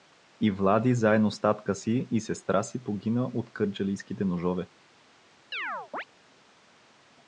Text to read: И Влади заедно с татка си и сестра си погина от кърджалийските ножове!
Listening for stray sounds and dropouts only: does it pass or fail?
fail